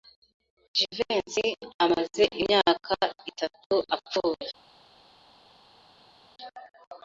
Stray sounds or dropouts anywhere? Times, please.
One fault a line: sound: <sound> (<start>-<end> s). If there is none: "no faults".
no faults